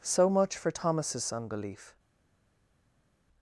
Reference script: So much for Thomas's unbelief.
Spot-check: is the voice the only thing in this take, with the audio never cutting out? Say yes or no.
yes